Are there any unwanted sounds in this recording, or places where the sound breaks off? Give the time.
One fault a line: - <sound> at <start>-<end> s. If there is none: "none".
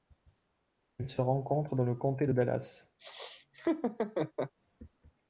- laugh at 3.0-4.5 s